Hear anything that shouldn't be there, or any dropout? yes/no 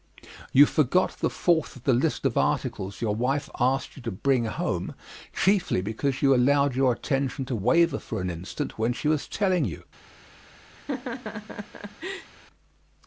yes